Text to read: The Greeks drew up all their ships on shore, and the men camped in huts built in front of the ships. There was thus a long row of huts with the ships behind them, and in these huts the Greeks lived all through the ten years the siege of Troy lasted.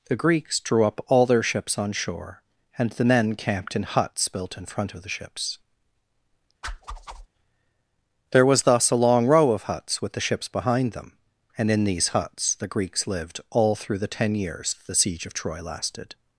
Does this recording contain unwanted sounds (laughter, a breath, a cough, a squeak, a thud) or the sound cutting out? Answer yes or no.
yes